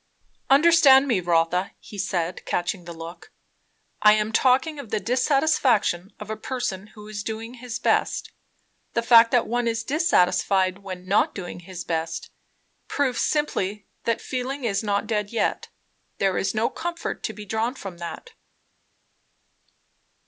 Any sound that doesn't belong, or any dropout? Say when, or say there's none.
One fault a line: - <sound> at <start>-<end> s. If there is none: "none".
none